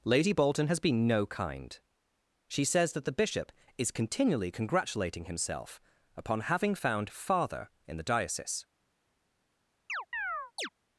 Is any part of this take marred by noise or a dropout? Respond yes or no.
yes